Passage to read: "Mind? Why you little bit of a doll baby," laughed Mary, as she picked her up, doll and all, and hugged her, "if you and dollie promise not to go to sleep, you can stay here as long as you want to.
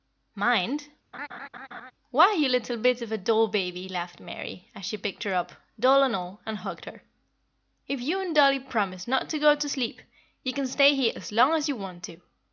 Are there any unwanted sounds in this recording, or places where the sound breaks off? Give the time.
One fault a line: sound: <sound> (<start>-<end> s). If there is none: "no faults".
sound: laugh (1.1-1.9 s)